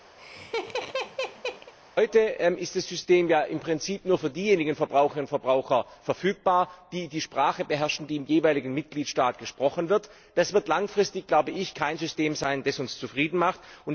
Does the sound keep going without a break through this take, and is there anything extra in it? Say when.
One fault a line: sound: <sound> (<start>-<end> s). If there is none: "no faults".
sound: laugh (0.2-1.7 s)